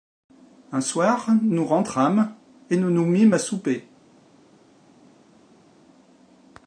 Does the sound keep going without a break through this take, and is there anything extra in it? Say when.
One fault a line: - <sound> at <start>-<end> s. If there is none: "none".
none